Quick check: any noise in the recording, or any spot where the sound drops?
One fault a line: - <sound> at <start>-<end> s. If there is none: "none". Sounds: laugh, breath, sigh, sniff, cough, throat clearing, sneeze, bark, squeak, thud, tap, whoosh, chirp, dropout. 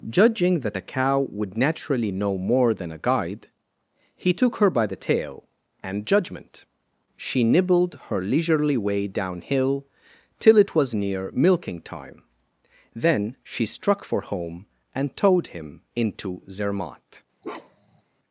- bark at 17.4-18.0 s